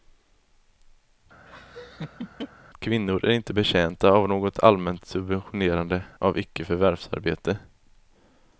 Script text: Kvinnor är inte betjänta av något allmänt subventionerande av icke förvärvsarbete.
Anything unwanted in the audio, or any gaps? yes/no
yes